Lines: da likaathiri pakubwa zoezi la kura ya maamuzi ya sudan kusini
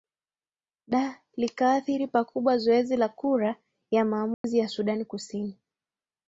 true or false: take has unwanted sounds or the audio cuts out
true